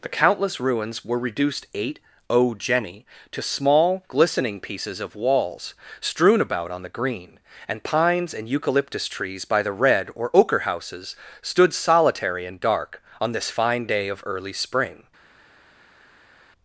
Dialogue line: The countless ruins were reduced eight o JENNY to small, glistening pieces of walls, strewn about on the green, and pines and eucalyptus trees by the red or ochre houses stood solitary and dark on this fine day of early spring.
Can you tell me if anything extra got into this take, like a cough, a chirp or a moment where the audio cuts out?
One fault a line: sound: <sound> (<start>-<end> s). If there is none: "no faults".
no faults